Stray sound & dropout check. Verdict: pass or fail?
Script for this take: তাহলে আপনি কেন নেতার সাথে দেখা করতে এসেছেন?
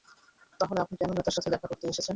pass